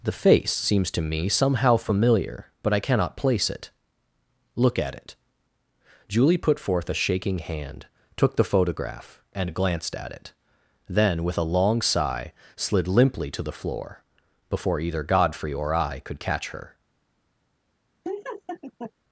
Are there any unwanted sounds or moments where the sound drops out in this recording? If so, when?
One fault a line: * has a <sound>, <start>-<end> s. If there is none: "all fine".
* has a laugh, 18.0-18.9 s